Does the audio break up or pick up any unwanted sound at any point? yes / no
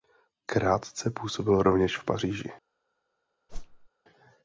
yes